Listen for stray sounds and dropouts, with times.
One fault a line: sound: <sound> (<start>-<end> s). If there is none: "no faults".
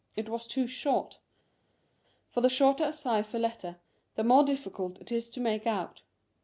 no faults